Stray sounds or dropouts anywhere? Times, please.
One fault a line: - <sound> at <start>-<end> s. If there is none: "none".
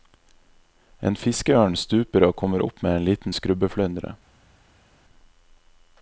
none